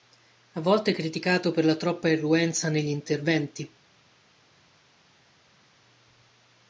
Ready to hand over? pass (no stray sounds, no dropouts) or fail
pass